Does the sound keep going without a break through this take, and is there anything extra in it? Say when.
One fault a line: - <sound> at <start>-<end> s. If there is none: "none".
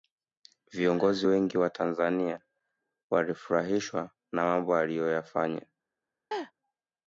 - laugh at 6.3-6.5 s